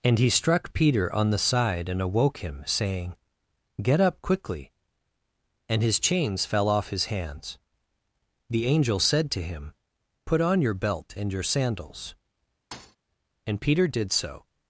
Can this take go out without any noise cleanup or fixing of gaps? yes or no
no